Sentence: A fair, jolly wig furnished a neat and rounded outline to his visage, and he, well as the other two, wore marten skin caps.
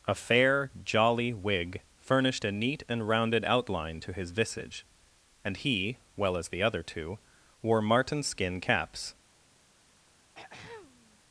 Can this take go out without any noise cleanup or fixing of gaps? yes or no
no